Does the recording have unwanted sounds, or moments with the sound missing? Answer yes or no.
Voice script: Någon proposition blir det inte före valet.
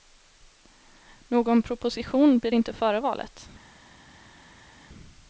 no